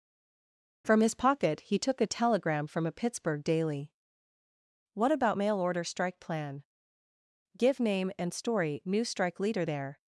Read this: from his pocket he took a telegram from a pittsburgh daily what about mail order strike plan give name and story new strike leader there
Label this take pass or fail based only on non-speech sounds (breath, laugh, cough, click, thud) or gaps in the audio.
pass